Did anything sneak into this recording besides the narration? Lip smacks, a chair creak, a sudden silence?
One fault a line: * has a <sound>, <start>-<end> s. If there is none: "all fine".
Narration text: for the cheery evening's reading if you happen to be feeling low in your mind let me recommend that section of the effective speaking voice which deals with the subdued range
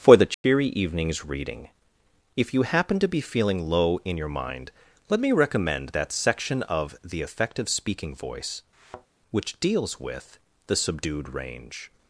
* has a dropout, 0.3-0.4 s
* has a thud, 8.7-9.1 s